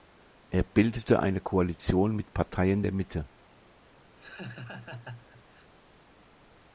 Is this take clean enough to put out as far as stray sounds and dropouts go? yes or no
no